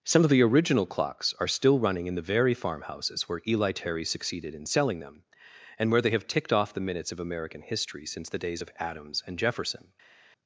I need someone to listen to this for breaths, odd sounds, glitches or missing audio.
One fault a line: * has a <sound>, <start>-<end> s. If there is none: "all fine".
all fine